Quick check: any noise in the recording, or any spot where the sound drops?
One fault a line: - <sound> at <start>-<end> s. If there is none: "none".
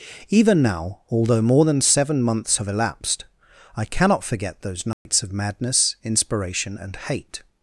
- dropout at 4.9-5.1 s